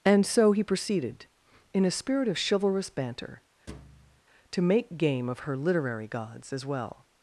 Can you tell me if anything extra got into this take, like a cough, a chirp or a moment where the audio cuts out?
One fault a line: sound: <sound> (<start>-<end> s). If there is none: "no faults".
sound: thud (3.7-4.2 s)